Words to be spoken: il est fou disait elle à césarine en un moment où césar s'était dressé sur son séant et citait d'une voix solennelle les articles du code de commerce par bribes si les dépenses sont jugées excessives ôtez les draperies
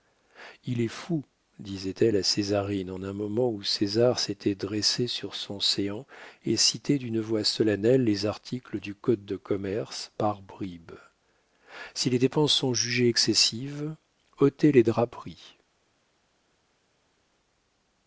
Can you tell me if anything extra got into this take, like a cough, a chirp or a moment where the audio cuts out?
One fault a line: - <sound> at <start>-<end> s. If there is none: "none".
none